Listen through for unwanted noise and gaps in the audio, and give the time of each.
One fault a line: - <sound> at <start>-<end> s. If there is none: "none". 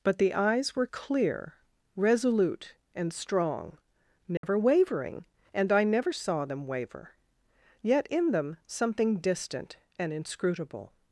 - dropout at 4.4-4.4 s